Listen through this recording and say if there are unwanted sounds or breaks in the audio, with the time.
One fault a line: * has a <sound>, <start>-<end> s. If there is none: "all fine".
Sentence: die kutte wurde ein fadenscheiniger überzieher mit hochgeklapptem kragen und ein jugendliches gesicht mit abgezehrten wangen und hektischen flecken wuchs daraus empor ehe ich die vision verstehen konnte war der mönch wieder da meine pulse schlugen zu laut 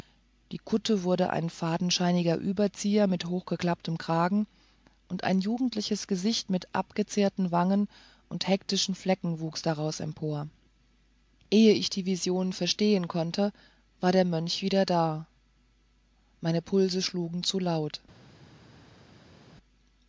all fine